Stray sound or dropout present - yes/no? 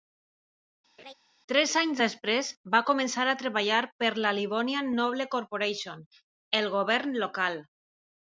yes